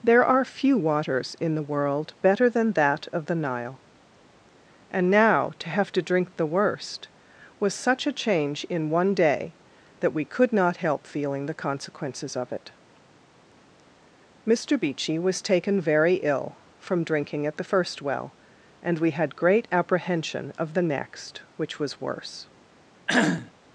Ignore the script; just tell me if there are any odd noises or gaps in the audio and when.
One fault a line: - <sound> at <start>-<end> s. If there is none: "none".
- cough at 23.1-23.5 s